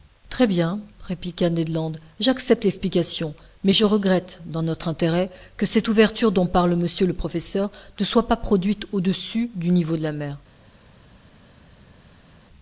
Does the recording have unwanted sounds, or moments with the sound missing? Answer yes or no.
no